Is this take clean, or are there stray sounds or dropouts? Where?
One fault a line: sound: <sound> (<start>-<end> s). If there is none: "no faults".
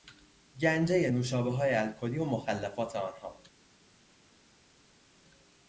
no faults